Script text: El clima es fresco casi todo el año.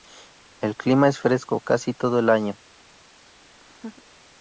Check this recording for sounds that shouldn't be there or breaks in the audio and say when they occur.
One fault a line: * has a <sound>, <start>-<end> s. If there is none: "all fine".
* has a laugh, 3.6-4.0 s